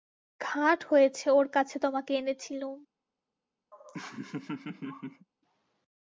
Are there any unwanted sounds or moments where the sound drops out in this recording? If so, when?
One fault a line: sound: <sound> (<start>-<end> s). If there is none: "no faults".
sound: laugh (3.7-5.3 s)